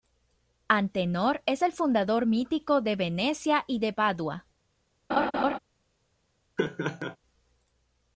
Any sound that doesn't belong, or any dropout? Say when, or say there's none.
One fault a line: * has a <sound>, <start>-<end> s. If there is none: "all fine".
* has a laugh, 5.1-5.6 s
* has a laugh, 6.6-7.2 s